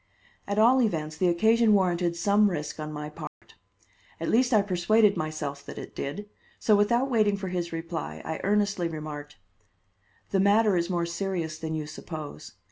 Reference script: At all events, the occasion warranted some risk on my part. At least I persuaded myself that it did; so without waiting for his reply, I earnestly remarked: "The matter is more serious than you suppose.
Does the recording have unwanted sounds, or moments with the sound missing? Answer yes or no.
yes